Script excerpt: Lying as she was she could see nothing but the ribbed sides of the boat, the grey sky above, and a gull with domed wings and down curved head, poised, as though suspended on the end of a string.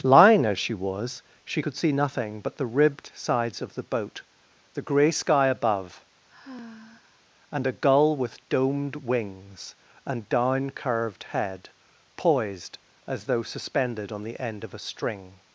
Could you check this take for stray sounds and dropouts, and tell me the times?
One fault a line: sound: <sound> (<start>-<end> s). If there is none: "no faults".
sound: sigh (6.3-7.3 s)